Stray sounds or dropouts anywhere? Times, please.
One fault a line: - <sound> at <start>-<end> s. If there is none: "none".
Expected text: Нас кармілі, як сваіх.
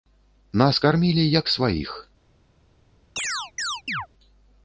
- chirp at 3.2-4.1 s